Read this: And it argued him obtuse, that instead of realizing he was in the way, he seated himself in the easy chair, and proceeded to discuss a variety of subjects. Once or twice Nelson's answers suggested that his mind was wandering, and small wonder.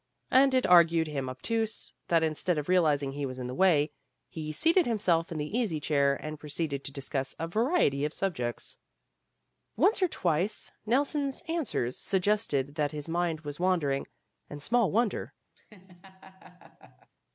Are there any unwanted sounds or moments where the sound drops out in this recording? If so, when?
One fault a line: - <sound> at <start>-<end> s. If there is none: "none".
- laugh at 15.5-17.1 s